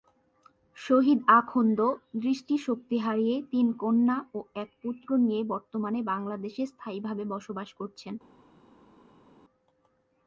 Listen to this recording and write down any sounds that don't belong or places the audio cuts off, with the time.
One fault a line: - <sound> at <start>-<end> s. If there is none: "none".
none